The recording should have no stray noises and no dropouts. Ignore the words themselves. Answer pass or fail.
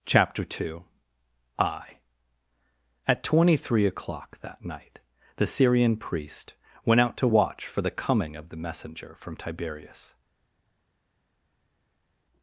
pass